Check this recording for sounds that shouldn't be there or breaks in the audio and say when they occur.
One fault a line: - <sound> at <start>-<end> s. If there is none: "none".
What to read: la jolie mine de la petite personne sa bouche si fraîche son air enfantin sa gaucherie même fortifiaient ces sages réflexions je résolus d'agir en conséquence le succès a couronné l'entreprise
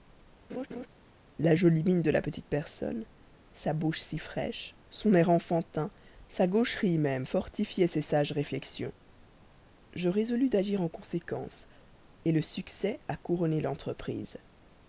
- laugh at 0.5-0.9 s